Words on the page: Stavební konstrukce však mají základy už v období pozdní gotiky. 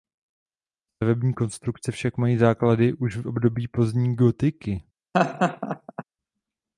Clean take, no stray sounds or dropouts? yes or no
no